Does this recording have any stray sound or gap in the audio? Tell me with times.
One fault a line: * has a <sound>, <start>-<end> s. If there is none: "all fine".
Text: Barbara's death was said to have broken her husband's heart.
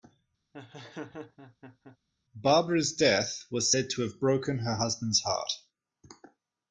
* has a laugh, 0.5-2.0 s